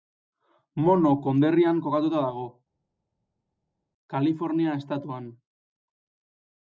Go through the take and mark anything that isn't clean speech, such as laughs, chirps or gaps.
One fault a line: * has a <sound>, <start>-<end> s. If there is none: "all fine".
all fine